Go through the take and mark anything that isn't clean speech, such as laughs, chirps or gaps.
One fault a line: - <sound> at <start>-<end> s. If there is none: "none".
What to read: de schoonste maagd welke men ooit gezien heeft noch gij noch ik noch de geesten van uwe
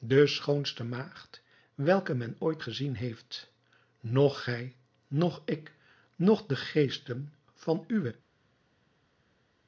none